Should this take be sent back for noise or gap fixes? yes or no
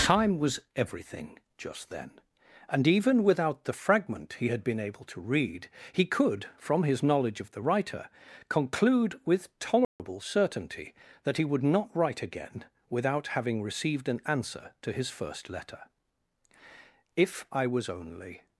yes